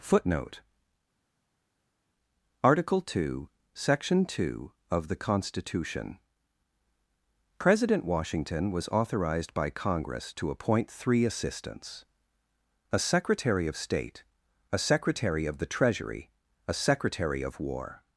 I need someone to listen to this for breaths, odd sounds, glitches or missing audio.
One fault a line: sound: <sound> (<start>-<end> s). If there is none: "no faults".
no faults